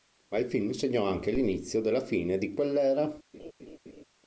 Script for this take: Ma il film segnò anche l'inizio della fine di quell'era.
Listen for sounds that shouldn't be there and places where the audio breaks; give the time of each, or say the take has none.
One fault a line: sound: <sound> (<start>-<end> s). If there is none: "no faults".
sound: laugh (3.3-4.0 s)